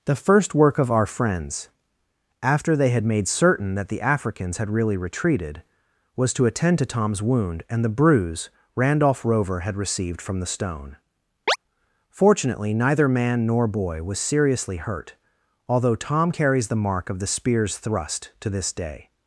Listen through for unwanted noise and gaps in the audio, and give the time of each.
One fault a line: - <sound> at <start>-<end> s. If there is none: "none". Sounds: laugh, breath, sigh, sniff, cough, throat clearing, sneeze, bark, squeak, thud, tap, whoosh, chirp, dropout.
- chirp at 11.5-11.6 s